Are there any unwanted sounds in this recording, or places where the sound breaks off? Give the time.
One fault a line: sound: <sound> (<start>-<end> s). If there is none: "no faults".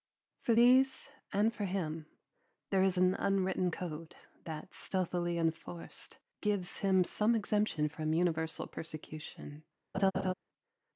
sound: laugh (9.9-10.3 s)